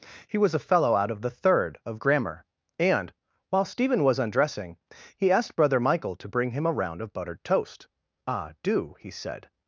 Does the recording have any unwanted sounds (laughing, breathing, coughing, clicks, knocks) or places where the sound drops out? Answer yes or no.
no